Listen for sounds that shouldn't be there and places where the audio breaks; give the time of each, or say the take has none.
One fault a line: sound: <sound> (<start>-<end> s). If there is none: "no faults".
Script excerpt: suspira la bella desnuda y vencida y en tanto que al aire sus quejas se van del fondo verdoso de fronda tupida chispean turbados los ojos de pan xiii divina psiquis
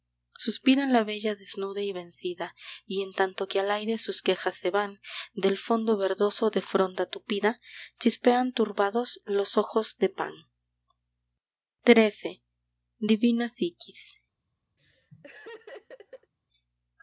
sound: laugh (14.8-16.3 s)